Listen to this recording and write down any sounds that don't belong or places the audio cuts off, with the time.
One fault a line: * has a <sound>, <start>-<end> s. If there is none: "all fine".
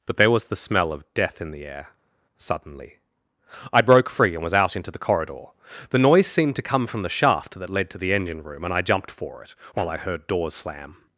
all fine